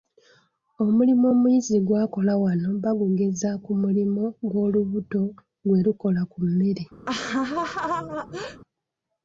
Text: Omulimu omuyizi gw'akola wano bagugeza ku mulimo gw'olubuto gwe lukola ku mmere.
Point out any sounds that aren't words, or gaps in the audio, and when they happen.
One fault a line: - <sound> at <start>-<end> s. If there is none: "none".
- laugh at 7.1-8.6 s